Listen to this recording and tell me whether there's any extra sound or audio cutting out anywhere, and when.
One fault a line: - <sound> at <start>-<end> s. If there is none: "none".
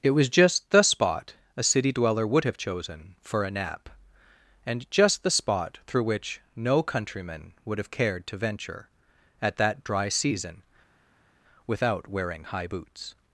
none